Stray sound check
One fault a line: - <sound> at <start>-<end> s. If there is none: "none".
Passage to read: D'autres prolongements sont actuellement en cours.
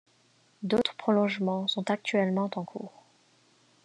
none